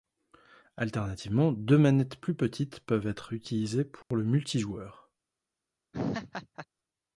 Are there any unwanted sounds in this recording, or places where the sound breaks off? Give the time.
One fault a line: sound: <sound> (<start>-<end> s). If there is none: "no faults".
sound: dropout (4.0-4.1 s)
sound: laugh (5.9-6.7 s)